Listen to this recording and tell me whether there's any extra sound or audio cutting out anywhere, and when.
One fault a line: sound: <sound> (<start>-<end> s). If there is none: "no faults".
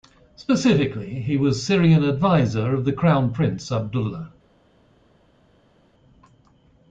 no faults